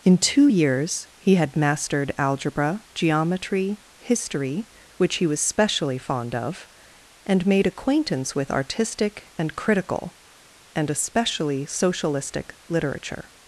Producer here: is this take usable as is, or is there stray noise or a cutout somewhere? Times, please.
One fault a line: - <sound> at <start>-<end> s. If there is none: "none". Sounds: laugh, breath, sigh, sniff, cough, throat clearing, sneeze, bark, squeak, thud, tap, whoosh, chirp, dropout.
none